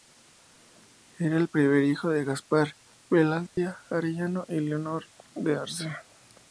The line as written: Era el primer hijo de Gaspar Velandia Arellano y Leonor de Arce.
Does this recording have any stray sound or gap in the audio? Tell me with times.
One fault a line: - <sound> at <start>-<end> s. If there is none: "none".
- dropout at 3.5-3.6 s